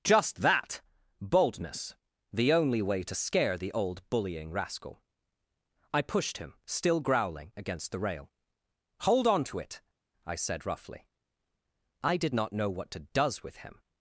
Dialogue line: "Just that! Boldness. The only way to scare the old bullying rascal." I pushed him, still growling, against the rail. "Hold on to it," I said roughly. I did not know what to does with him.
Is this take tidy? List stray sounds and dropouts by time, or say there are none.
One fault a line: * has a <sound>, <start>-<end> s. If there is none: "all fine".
all fine